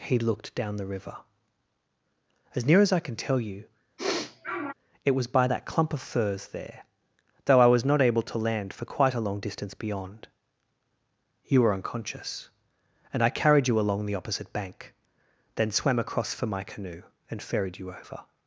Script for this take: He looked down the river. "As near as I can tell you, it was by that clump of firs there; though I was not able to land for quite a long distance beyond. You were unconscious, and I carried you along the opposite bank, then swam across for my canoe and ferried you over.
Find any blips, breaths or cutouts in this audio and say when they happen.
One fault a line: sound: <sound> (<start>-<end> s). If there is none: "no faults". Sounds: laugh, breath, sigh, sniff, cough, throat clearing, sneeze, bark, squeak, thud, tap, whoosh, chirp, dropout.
sound: sniff (4.0-4.7 s)